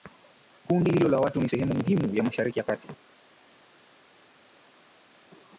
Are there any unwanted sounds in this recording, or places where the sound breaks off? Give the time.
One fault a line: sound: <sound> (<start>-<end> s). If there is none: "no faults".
no faults